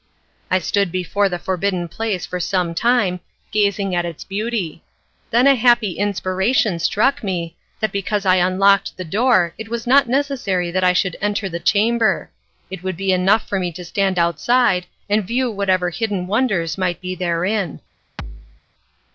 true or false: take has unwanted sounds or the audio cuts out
true